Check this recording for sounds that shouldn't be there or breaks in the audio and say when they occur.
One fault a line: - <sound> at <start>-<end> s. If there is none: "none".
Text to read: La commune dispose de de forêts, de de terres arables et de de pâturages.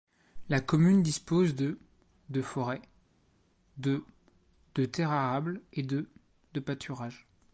none